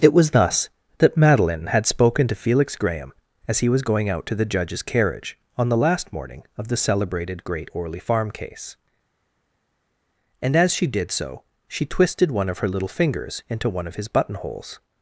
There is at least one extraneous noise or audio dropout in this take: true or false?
false